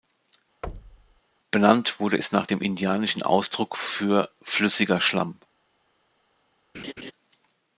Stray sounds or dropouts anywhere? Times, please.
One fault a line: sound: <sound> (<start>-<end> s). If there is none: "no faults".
sound: thud (0.6-1.2 s)
sound: laugh (6.7-7.1 s)